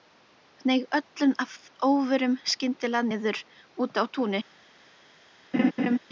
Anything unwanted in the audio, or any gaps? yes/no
yes